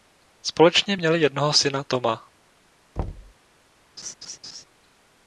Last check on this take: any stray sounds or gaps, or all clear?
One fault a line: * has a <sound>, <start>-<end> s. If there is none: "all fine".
* has a thud, 3.0-3.3 s
* has a laugh, 4.0-4.6 s